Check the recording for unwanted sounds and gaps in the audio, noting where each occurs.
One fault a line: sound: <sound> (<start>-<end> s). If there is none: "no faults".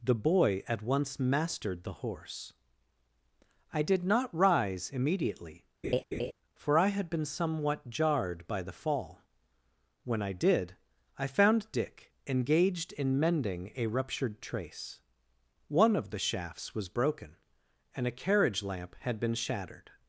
sound: laugh (5.8-6.3 s)